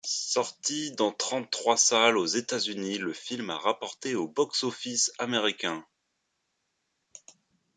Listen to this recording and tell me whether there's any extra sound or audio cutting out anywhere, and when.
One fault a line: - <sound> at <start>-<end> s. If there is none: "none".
none